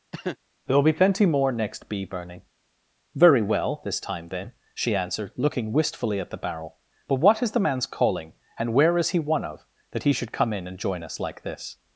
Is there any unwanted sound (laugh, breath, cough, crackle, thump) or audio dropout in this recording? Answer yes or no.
yes